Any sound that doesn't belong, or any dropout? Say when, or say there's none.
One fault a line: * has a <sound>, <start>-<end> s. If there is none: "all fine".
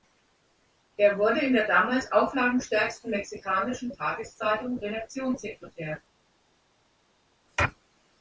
all fine